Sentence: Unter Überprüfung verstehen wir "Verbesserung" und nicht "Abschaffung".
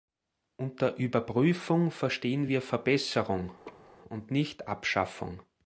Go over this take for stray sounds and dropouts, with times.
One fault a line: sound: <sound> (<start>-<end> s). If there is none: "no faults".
sound: laugh (3.6-3.9 s)